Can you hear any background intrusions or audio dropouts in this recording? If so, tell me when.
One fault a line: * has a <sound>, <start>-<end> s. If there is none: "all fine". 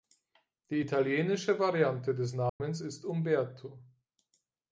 * has a dropout, 2.5-2.6 s